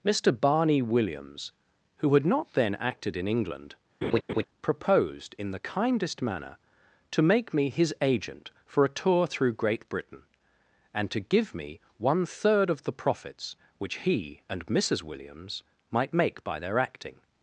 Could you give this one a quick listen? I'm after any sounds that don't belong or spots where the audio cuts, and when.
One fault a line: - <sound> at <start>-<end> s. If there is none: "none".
- laugh at 4.0-4.4 s